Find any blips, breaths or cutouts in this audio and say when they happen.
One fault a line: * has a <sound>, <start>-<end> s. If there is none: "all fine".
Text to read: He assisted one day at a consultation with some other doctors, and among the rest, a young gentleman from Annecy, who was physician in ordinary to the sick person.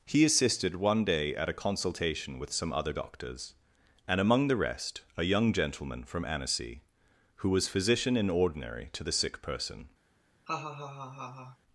* has a laugh, 10.5-11.6 s